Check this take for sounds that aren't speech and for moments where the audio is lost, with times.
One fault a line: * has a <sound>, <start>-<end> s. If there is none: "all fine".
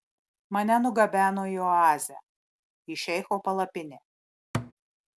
* has a thud, 4.5-4.7 s